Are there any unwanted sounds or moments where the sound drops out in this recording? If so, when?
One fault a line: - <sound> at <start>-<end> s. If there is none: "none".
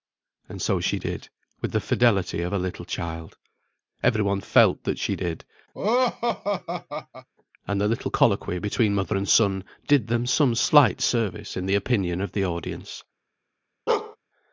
- laugh at 5.7-7.3 s
- bark at 13.9-14.2 s